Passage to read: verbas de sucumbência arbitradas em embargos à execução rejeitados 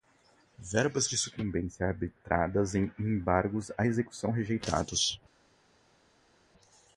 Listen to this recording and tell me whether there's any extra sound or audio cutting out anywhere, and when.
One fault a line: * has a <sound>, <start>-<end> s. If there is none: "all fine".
all fine